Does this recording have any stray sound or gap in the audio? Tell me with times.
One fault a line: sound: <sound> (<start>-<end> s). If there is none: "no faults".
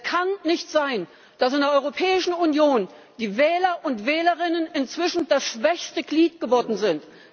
no faults